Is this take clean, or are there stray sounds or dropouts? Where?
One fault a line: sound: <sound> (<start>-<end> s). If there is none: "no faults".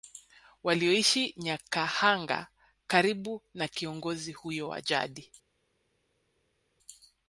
no faults